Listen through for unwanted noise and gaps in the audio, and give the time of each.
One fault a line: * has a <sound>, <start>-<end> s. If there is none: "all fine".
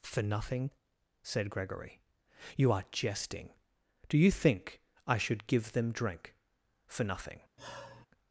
* has a sigh, 7.6-8.1 s